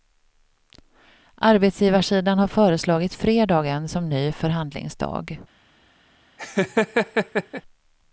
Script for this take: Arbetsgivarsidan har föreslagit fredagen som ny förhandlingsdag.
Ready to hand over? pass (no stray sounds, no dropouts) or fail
fail